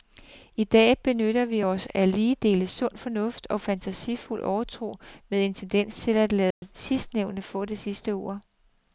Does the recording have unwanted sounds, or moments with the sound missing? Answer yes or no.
yes